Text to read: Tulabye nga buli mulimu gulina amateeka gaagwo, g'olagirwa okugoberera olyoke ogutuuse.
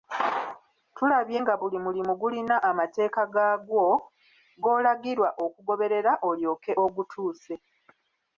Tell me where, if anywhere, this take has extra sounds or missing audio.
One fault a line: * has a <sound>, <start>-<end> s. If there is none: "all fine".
all fine